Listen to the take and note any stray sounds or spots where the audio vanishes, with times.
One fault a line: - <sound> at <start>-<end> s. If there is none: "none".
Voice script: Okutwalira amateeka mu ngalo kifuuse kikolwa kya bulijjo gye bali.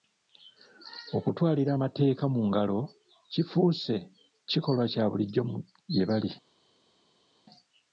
none